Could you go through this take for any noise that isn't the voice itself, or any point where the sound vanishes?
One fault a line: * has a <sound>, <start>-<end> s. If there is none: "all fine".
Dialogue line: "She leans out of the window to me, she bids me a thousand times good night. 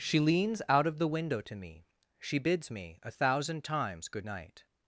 all fine